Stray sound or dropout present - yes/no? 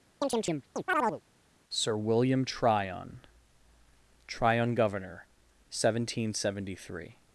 yes